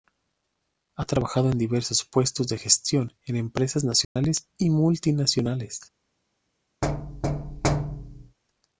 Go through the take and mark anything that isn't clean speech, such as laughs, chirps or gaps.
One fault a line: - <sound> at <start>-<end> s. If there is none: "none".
- dropout at 4.0-4.2 s
- thud at 6.8-8.4 s